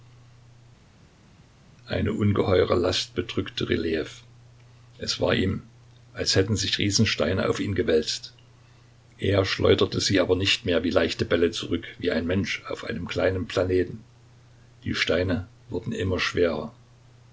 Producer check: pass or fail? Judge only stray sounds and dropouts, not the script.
pass